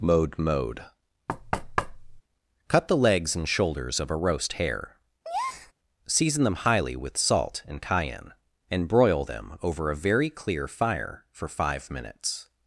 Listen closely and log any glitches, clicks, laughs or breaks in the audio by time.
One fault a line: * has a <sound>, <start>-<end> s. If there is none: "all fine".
* has a thud, 1.3-2.2 s
* has a breath, 5.2-5.7 s